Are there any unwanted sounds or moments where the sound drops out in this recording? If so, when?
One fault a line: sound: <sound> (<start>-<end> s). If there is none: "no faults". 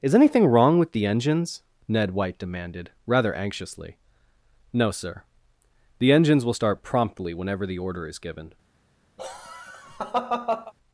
sound: laugh (9.2-10.7 s)